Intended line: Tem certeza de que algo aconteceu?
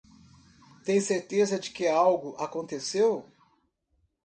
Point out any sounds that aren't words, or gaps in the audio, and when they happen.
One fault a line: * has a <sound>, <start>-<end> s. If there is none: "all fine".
all fine